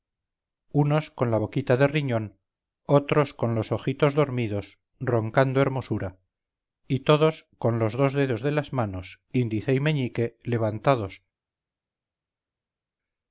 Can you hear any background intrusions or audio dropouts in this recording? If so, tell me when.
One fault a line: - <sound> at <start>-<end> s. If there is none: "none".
none